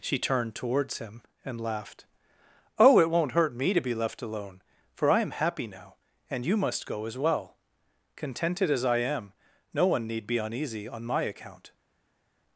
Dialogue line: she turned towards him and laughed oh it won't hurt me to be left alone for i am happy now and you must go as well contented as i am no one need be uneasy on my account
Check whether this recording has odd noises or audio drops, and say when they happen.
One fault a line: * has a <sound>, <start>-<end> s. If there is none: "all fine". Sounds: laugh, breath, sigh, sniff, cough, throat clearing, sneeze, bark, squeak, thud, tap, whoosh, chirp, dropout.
all fine